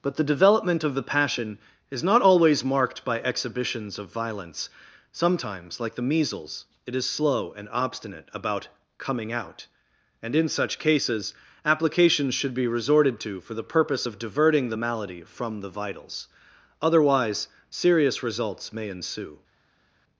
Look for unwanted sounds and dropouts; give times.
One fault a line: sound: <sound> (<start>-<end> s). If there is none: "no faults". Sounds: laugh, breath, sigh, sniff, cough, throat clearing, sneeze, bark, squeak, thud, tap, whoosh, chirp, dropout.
no faults